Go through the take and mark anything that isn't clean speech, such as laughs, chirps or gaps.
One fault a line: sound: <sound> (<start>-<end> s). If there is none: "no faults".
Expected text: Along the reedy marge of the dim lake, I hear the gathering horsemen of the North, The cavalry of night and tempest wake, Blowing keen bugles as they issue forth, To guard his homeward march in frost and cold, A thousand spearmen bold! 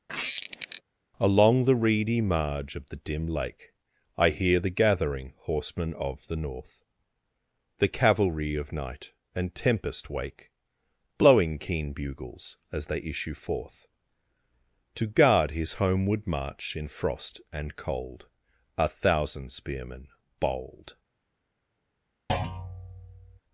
sound: squeak (0.1-0.8 s)
sound: thud (22.3-23.4 s)